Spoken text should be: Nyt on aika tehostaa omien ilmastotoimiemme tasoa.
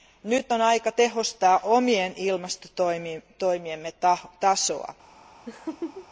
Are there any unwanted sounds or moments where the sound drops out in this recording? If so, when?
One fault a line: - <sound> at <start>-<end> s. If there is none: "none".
- laugh at 5.5-6.1 s